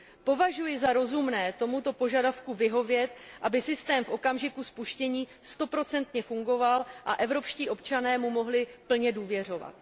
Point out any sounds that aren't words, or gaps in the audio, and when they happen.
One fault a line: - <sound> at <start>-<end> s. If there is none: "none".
none